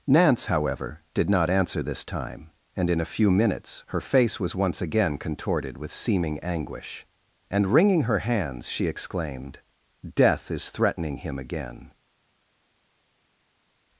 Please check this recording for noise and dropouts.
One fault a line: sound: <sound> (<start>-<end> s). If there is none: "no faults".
no faults